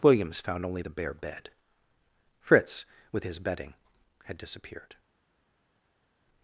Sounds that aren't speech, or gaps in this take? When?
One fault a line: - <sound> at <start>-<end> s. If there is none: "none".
none